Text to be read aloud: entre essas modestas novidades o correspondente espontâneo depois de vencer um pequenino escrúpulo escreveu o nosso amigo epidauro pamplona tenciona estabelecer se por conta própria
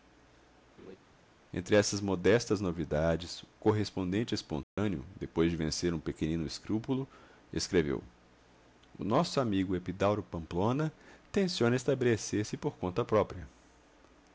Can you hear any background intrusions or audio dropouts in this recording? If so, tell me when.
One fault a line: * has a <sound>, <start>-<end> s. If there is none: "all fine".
* has a laugh, 0.8-1.0 s
* has a dropout, 4.6-4.8 s